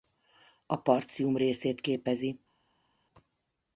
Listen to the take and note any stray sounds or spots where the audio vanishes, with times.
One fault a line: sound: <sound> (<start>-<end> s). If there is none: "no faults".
no faults